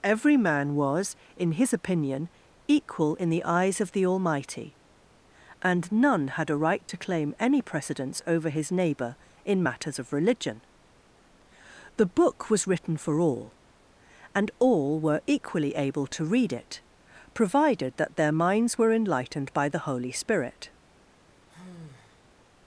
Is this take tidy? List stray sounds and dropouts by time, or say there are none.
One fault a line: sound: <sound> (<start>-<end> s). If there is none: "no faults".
sound: sigh (21.5-22.3 s)